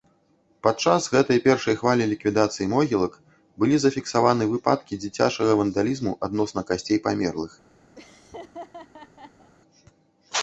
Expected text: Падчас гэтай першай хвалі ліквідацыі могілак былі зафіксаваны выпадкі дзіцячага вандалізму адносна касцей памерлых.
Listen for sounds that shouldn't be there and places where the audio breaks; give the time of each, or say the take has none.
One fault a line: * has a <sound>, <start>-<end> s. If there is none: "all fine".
* has a laugh, 8.0-9.5 s